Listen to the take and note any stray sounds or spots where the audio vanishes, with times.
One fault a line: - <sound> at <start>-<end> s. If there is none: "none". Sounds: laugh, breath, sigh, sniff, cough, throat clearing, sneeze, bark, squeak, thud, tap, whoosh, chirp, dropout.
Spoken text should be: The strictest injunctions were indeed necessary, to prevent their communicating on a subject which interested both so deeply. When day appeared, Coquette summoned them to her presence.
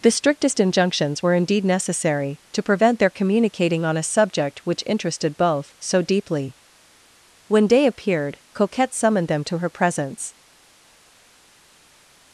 none